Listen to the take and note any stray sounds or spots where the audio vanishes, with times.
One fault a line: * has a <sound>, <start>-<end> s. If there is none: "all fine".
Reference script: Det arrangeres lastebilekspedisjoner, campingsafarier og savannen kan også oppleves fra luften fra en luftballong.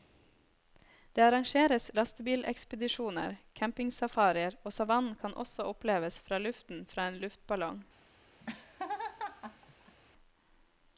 * has a laugh, 8.4-10.0 s